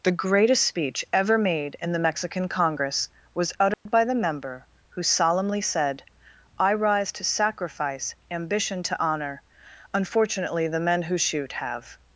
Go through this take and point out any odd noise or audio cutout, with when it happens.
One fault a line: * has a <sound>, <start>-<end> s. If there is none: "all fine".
* has a dropout, 3.7-3.9 s